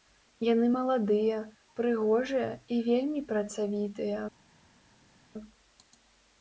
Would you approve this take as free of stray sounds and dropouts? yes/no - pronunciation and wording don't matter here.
yes